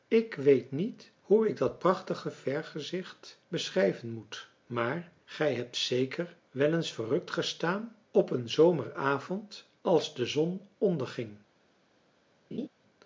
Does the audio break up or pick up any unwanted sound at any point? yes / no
yes